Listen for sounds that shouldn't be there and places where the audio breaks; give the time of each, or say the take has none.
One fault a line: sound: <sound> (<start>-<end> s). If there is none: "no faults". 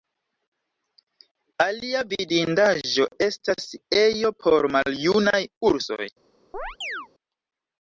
sound: chirp (6.5-7.1 s)